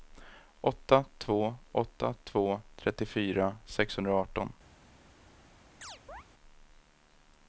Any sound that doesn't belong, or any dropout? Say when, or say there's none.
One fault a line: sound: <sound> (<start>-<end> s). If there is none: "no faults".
sound: chirp (5.8-6.2 s)